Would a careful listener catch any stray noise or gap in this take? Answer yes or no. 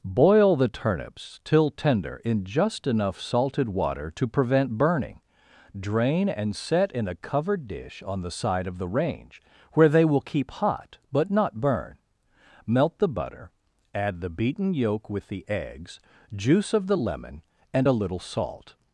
no